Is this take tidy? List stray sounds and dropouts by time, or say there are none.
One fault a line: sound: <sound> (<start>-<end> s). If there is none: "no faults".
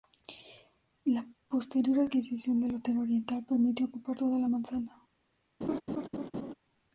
sound: laugh (5.6-6.5 s)